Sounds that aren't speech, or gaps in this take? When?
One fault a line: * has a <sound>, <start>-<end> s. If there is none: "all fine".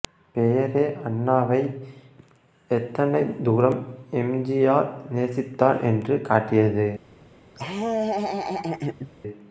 * has a laugh, 7.5-9.1 s